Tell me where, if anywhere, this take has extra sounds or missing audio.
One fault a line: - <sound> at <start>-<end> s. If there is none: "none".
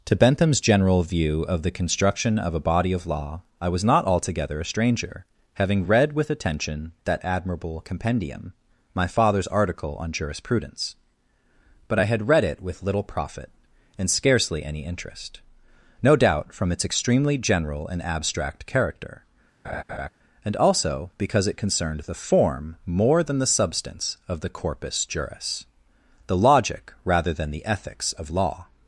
- laugh at 19.6-20.1 s